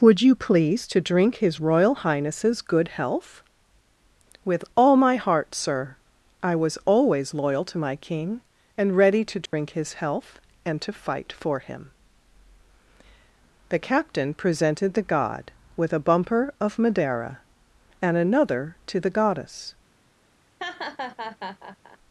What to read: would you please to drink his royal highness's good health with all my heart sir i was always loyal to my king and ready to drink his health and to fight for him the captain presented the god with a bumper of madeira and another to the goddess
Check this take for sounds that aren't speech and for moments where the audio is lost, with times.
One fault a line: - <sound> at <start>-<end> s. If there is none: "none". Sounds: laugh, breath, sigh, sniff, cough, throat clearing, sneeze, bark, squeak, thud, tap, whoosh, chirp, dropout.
- dropout at 9.5-9.5 s
- laugh at 20.6-22.0 s